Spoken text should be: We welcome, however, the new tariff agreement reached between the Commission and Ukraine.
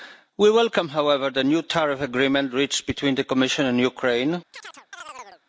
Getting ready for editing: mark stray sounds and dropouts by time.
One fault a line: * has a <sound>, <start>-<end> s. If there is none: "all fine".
* has a chirp, 4.5-5.4 s